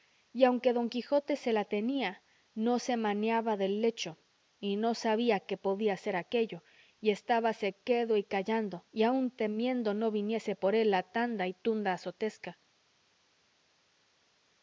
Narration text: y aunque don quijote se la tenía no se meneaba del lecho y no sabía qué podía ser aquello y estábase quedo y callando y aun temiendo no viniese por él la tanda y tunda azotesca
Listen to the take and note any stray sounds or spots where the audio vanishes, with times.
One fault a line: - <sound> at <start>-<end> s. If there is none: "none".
none